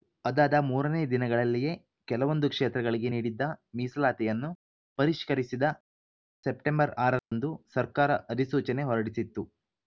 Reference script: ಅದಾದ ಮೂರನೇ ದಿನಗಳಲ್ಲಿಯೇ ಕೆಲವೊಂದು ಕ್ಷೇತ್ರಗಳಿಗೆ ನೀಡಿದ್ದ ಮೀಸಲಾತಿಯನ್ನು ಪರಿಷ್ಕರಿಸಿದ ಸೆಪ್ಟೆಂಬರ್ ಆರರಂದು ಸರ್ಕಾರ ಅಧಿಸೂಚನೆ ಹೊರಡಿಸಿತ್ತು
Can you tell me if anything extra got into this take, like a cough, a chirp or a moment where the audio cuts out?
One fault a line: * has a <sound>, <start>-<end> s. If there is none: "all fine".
* has a dropout, 7.2-7.3 s